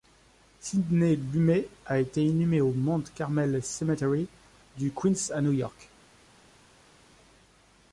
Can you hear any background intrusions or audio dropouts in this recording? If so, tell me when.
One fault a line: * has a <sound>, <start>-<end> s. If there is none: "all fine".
all fine